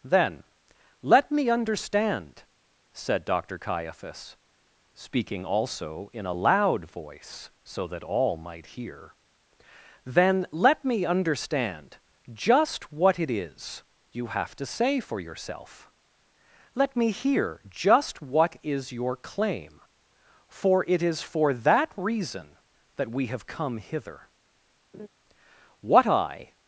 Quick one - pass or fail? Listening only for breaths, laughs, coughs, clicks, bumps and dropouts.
fail